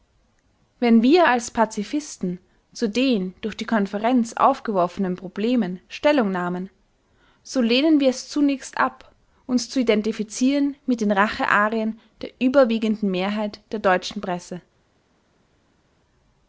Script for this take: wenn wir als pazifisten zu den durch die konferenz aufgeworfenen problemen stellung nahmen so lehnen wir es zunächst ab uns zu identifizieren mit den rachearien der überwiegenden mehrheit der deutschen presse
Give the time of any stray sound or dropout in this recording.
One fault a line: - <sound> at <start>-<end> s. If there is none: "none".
none